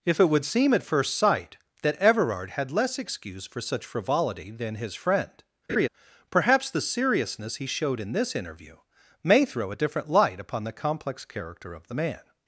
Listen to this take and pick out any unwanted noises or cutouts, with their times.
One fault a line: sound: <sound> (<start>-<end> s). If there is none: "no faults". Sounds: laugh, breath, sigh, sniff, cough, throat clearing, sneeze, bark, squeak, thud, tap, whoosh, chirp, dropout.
sound: laugh (5.7-5.9 s)